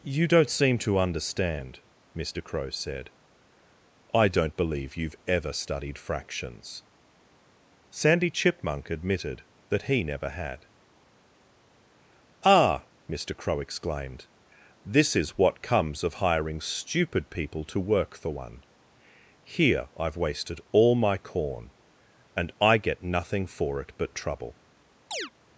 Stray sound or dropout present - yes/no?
yes